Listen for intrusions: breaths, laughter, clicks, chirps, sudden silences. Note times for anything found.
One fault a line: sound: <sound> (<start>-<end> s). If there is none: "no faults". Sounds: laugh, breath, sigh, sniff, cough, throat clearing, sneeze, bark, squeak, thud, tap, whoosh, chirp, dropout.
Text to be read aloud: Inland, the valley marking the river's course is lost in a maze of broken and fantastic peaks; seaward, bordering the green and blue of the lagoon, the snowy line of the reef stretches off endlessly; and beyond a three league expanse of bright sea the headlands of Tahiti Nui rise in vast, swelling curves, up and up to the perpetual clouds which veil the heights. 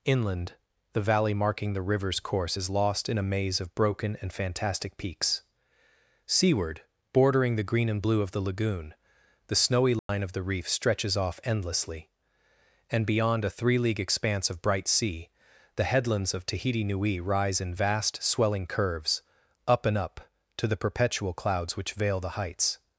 sound: dropout (10.0-10.1 s)